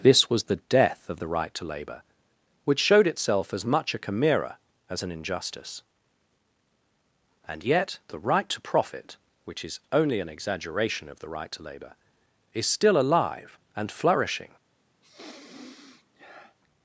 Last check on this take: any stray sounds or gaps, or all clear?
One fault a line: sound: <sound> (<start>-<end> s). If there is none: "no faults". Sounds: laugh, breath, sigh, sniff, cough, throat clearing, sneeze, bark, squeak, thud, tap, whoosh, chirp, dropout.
sound: sniff (15.0-16.6 s)